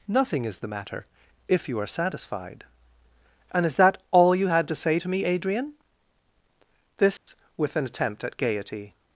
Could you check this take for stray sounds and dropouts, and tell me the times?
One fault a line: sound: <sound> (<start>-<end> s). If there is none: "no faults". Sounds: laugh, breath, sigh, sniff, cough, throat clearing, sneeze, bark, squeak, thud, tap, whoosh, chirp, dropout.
sound: dropout (7.2-7.3 s)